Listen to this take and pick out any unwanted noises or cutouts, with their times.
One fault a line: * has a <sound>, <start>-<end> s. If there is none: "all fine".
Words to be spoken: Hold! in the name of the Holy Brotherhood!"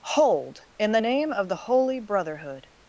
all fine